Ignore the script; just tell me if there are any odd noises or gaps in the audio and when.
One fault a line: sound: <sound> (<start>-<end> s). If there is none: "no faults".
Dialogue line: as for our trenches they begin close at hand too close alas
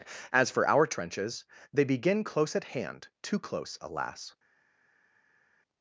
no faults